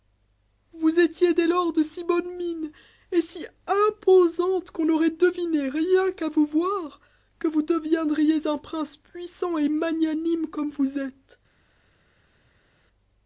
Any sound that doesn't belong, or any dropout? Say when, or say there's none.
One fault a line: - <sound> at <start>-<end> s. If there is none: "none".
none